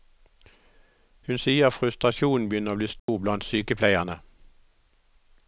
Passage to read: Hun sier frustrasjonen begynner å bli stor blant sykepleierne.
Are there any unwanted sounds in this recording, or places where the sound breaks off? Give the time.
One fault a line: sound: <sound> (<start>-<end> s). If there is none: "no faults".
sound: dropout (3.0-3.1 s)